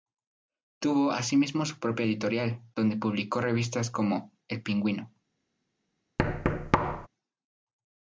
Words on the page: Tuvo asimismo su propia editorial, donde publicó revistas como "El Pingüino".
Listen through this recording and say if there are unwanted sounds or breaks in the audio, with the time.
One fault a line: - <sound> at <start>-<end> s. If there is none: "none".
- thud at 6.2-7.1 s